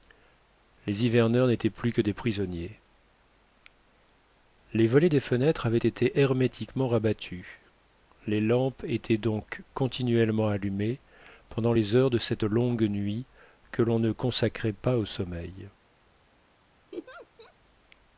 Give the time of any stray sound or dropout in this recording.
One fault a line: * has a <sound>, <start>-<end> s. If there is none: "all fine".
* has a laugh, 16.9-17.5 s